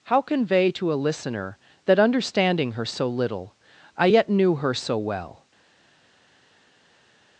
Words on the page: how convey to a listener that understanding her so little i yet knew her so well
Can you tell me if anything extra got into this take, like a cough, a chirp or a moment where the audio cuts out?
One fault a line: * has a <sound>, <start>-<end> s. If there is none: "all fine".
all fine